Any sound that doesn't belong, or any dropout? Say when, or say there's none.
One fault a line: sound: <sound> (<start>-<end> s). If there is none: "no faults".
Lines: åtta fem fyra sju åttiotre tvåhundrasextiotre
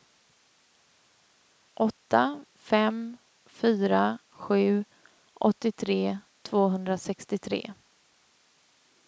no faults